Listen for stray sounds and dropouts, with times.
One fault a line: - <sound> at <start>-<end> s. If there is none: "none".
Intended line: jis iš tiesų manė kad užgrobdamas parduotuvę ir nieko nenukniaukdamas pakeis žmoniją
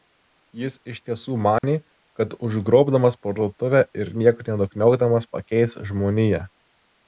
- dropout at 1.6-1.6 s